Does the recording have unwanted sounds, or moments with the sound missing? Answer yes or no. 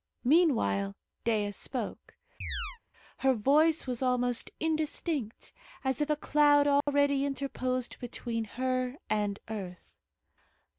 yes